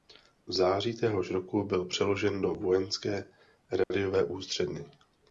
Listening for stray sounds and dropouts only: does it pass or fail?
fail